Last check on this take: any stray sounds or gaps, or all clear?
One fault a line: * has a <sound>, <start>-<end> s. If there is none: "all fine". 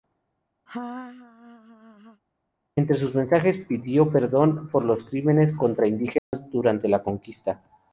* has a laugh, 0.7-2.2 s
* has a dropout, 6.2-6.3 s